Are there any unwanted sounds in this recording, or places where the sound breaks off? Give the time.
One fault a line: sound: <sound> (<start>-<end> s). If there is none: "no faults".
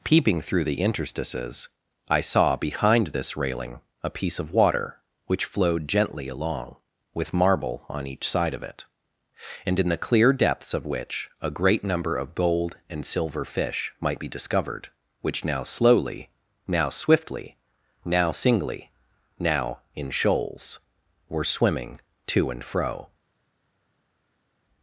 no faults